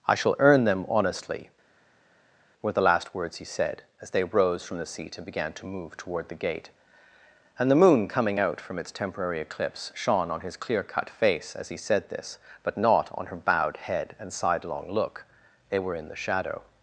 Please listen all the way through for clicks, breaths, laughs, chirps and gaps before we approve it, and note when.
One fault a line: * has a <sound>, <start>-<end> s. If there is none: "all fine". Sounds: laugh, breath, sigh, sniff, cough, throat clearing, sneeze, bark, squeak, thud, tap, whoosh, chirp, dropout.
all fine